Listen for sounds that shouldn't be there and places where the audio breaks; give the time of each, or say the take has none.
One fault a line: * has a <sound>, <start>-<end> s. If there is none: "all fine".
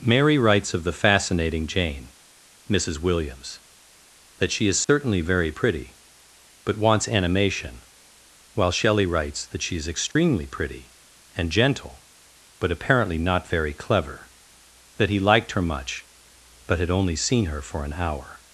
* has a dropout, 4.8-4.9 s
* has a dropout, 10.1-10.2 s